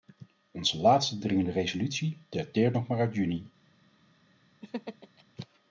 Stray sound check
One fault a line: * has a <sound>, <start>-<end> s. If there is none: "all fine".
* has a laugh, 4.6-5.2 s